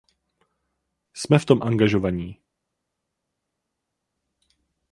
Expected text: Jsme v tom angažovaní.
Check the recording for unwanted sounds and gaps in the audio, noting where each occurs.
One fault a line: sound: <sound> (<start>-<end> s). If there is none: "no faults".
no faults